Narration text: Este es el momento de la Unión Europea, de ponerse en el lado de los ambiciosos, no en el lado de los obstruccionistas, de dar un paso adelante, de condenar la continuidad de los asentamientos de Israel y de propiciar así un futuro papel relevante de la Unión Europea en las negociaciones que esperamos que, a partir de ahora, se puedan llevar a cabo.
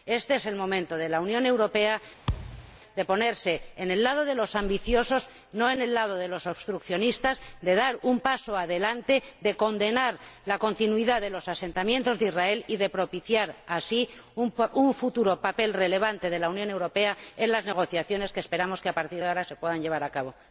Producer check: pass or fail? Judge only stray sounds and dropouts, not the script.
fail